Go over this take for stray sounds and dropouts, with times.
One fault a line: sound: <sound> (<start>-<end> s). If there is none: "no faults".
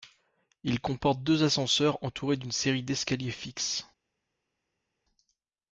no faults